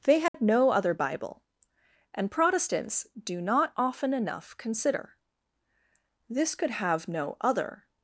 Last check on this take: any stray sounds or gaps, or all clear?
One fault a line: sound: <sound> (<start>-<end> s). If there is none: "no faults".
sound: dropout (0.3-0.3 s)